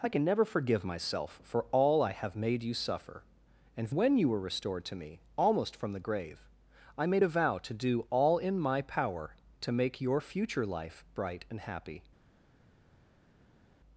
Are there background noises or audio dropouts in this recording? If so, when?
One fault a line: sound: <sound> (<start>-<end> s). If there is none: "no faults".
no faults